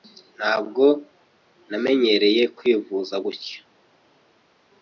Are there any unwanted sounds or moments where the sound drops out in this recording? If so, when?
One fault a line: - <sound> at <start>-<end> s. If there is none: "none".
none